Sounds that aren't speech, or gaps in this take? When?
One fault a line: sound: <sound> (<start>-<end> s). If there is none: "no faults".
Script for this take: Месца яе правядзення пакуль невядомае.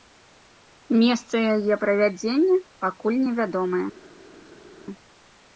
no faults